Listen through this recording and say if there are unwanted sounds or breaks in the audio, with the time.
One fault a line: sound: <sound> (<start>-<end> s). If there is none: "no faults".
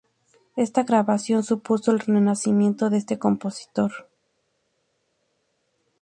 no faults